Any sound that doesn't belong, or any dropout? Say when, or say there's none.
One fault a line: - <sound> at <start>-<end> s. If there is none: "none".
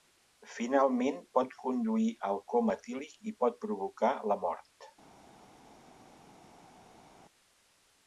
none